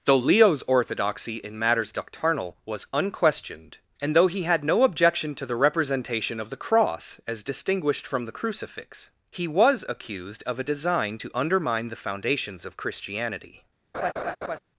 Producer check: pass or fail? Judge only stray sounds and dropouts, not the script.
fail